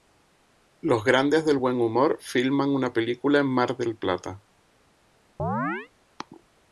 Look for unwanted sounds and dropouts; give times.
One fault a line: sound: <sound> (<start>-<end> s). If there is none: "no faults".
sound: chirp (5.4-5.9 s)